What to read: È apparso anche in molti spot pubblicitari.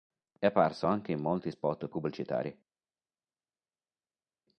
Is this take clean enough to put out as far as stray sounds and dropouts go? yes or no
yes